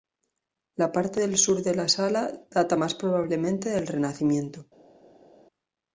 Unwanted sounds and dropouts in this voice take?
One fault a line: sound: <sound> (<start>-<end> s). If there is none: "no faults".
no faults